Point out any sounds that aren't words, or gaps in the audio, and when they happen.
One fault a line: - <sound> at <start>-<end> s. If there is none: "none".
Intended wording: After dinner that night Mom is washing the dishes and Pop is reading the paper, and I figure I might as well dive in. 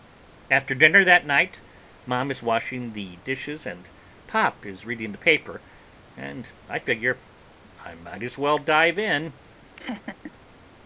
- laugh at 9.8-10.3 s